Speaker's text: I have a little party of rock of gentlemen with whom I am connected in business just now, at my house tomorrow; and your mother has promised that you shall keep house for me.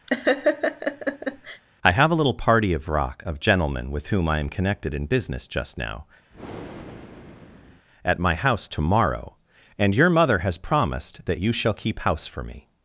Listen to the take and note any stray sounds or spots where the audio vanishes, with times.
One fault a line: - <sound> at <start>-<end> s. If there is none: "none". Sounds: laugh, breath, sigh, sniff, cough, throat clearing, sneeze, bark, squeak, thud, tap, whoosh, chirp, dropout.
- laugh at 0.1-1.6 s
- breath at 6.3-7.9 s